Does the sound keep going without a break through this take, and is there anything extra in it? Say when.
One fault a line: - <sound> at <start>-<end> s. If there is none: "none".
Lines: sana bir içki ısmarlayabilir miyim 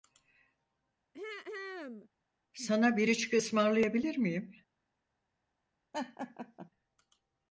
- throat clearing at 1.1-2.1 s
- laugh at 5.9-6.7 s